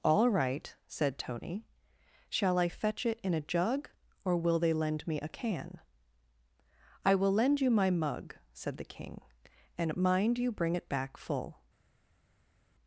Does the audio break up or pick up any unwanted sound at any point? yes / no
no